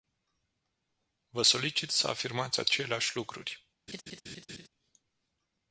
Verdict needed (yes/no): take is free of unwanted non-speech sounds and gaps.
no